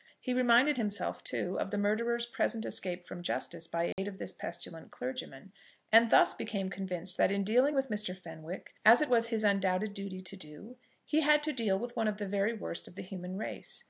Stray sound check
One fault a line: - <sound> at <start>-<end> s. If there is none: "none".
- dropout at 3.9-4.0 s